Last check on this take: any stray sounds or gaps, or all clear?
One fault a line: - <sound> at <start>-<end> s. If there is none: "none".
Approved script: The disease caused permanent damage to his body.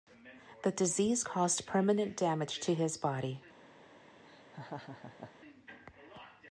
- laugh at 4.3-5.3 s